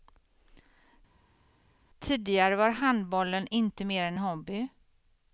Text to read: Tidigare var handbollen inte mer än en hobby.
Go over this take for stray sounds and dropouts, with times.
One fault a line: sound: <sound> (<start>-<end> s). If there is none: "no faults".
no faults